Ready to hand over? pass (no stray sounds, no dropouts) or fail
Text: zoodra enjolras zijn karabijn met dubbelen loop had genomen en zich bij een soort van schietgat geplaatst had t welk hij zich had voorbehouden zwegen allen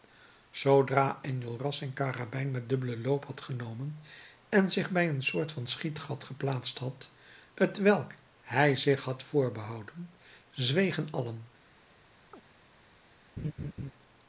fail